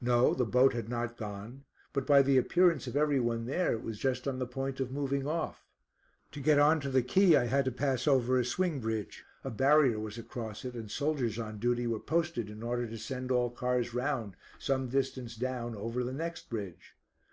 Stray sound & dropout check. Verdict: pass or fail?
pass